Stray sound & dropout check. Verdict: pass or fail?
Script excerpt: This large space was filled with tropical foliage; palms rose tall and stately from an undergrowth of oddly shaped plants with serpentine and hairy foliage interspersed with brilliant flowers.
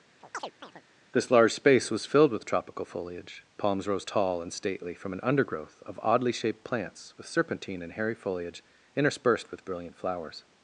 fail